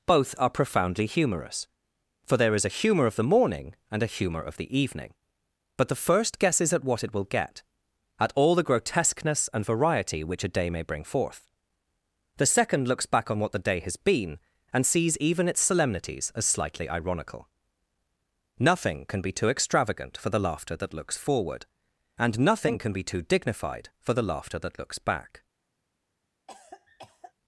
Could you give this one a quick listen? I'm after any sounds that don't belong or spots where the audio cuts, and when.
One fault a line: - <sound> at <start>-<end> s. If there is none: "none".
- cough at 26.5-27.3 s